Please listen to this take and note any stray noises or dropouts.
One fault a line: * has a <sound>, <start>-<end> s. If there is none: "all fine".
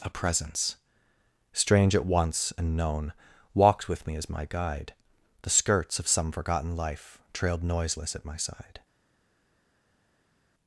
all fine